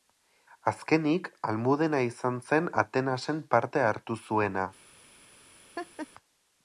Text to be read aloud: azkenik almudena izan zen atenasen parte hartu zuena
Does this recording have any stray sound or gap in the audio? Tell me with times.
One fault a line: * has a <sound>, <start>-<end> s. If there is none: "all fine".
* has a laugh, 5.8-6.1 s